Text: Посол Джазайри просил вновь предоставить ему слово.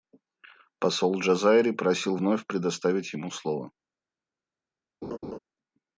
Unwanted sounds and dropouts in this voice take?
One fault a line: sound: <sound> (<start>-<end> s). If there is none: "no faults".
sound: laugh (5.0-5.4 s)